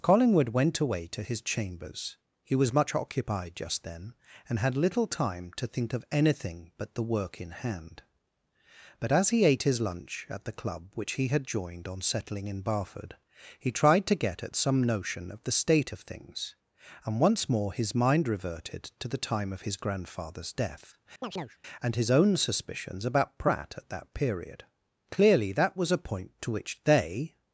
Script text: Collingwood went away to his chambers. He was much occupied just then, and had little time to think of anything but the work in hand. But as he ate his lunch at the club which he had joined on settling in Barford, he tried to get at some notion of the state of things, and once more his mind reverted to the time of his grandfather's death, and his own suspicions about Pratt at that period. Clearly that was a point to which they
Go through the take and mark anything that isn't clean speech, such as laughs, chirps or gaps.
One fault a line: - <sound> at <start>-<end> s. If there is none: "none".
- chirp at 21.2-21.6 s